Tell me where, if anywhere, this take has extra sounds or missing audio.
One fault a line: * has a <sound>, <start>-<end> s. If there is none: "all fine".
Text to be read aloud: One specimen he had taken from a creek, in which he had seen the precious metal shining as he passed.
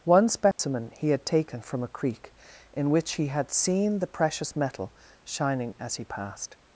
* has a dropout, 0.5-0.6 s